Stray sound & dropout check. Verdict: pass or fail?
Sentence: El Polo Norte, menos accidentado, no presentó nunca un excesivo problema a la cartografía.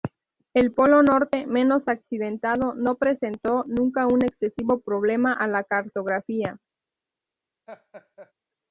fail